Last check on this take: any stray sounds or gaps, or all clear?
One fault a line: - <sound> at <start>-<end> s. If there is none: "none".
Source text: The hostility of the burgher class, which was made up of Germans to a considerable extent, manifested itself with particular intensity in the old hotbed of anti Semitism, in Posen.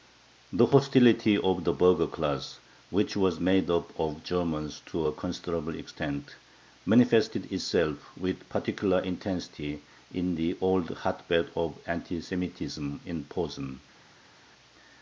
none